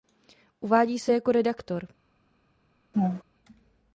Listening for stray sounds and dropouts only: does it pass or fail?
fail